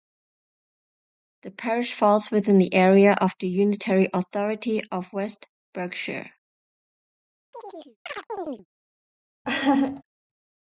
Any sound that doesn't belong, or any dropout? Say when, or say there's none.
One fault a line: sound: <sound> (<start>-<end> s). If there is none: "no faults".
sound: chirp (7.5-8.7 s)
sound: laugh (9.4-10.0 s)